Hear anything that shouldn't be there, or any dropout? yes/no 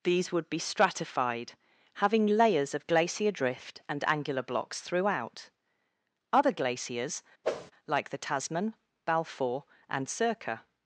yes